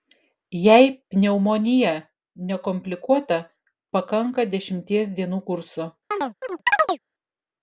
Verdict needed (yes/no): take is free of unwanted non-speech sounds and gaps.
no